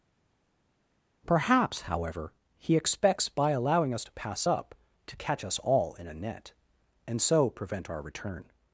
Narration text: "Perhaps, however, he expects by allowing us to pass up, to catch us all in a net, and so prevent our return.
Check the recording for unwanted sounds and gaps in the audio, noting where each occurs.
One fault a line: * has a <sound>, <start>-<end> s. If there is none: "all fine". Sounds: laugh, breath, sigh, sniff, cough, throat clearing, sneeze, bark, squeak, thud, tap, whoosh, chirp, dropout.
all fine